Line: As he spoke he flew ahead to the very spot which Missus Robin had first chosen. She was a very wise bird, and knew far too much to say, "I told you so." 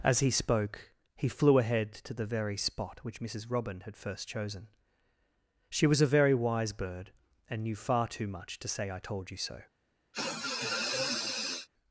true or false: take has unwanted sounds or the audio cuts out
true